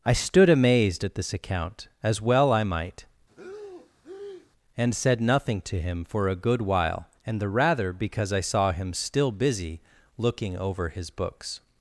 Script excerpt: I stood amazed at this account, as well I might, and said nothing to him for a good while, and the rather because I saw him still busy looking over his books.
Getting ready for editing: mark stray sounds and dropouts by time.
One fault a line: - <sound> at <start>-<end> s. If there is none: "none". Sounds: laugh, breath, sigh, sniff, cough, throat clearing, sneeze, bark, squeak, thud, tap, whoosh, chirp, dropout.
- breath at 3.3-4.5 s